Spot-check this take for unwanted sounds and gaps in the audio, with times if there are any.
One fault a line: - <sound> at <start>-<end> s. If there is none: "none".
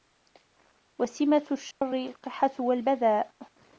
- dropout at 1.7-1.8 s